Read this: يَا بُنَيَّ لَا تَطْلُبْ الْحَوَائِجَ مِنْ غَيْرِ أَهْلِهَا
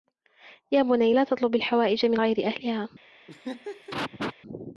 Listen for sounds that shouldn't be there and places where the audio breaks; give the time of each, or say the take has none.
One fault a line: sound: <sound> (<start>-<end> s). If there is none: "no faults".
sound: laugh (3.3-4.3 s)